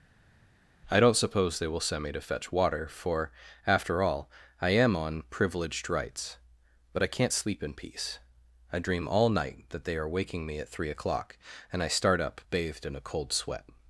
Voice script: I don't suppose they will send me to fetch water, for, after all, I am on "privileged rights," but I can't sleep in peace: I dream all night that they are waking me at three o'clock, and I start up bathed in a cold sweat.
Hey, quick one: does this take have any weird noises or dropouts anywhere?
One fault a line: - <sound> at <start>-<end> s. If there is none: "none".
none